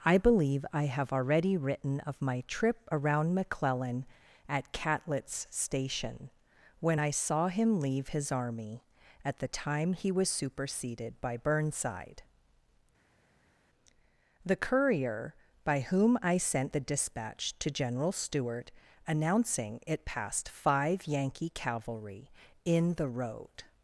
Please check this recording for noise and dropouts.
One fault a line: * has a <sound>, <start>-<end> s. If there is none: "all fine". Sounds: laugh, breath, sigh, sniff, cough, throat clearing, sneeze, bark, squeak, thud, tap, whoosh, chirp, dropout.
all fine